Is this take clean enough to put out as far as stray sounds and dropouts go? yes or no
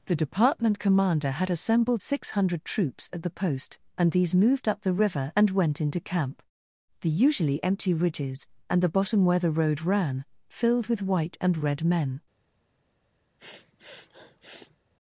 no